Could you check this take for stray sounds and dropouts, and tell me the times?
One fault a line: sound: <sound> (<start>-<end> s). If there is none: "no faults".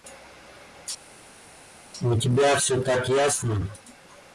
no faults